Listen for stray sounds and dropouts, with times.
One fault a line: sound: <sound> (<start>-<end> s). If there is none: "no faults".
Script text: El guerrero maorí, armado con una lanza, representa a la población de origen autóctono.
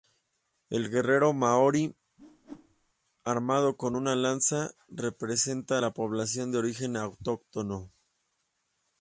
sound: whoosh (2.2-2.9 s)